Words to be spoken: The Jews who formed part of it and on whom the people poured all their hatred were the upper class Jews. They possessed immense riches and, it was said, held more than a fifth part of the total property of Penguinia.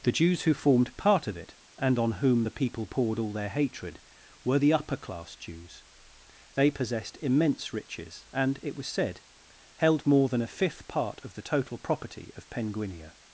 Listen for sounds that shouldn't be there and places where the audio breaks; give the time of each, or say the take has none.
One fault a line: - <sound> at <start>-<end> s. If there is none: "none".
none